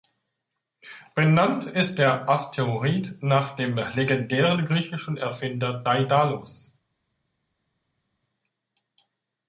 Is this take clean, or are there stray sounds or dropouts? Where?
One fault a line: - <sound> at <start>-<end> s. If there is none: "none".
none